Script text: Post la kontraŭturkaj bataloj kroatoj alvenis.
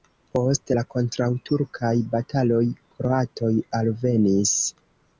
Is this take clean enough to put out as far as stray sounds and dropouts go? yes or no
yes